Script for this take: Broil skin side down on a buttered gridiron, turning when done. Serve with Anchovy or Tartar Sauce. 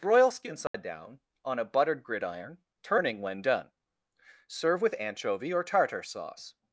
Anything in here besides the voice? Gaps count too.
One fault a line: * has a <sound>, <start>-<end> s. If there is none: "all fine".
* has a dropout, 0.7-0.7 s